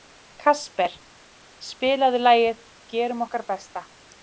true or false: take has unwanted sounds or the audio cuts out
false